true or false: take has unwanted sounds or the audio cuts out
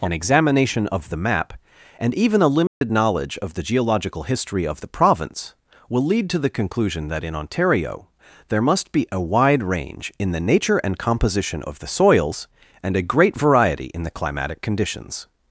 true